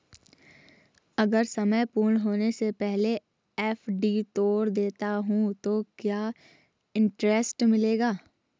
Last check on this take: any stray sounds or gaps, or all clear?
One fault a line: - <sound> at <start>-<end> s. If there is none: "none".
none